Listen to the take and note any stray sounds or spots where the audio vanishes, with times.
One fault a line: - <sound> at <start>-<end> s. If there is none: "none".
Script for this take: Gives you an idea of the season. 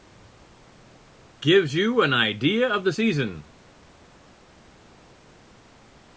none